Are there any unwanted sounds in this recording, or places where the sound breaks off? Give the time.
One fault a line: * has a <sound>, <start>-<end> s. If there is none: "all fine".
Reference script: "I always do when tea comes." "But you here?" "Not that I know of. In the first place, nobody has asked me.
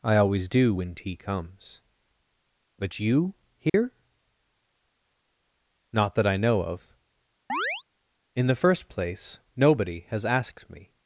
* has a dropout, 3.7-3.7 s
* has a chirp, 7.5-7.8 s